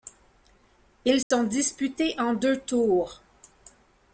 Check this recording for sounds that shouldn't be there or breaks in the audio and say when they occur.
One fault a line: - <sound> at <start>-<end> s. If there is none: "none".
- dropout at 1.2-1.3 s